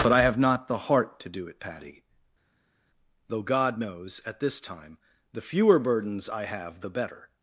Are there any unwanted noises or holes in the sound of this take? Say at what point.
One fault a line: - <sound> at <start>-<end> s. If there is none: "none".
none